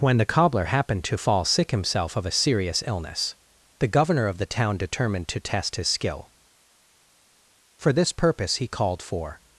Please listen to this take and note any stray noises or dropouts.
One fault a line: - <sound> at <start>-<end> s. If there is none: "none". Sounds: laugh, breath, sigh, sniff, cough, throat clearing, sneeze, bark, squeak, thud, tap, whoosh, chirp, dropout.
none